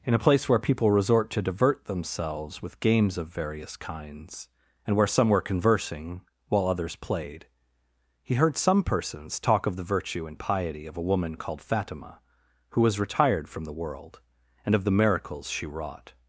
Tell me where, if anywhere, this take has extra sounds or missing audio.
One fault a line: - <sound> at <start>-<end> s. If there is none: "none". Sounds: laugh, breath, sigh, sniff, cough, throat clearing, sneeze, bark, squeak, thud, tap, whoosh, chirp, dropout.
none